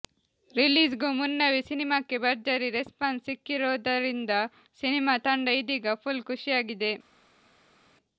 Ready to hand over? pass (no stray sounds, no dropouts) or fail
pass